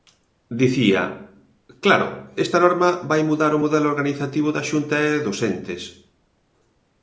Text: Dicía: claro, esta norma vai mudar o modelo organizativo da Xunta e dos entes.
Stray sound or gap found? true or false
false